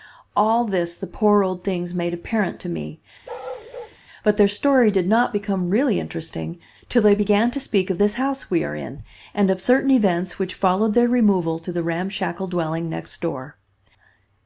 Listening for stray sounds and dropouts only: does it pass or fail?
fail